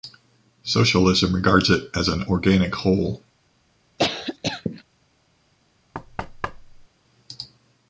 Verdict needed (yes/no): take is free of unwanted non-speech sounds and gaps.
no